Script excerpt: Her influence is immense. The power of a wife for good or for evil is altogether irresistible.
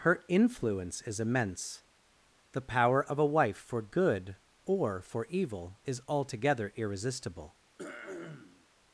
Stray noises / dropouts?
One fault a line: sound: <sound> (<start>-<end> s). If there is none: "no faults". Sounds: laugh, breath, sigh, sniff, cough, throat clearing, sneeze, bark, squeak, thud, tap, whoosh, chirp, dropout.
sound: throat clearing (7.8-8.7 s)